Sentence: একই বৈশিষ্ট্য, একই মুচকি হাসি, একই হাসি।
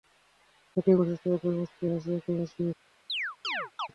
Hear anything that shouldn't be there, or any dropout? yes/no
yes